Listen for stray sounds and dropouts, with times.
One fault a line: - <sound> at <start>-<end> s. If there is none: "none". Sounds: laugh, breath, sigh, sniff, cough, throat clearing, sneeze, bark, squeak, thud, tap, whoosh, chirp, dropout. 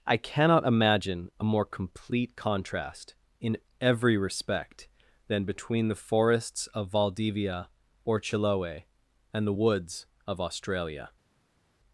none